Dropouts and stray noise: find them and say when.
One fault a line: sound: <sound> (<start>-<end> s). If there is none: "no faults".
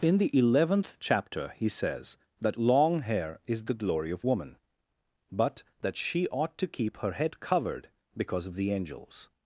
no faults